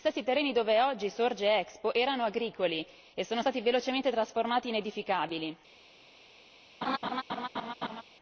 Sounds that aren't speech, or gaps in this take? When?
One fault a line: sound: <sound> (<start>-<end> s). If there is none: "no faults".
sound: laugh (6.8-8.0 s)